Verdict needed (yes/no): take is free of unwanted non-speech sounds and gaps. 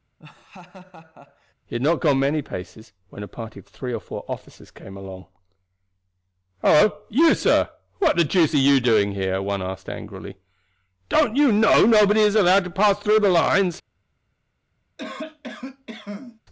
no